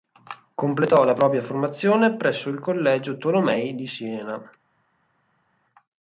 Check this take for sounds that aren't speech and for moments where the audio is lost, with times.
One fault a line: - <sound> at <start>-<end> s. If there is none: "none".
none